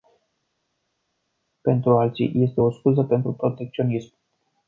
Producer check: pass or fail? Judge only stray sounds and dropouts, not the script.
pass